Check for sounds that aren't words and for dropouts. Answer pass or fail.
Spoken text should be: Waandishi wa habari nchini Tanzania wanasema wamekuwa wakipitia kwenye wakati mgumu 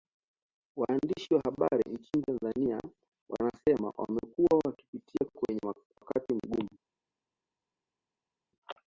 pass